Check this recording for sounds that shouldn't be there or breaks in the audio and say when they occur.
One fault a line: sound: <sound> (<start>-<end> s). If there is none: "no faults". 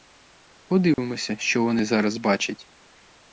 sound: dropout (0.9-1.0 s)